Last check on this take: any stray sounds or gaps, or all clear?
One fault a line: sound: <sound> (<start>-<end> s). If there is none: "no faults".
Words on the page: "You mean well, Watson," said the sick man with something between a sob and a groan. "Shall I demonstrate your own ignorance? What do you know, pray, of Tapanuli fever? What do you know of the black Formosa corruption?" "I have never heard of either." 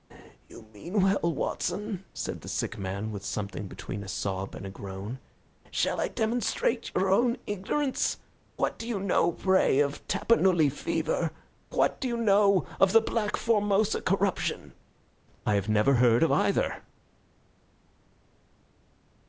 no faults